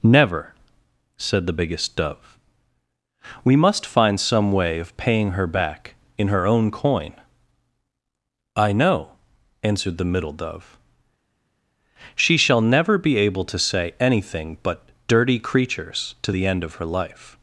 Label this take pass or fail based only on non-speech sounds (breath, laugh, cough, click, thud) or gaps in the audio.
pass